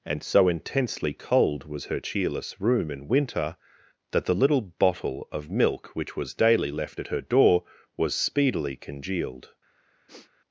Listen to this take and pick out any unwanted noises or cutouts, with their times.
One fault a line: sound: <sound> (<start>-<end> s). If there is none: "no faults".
sound: sniff (10.1-10.3 s)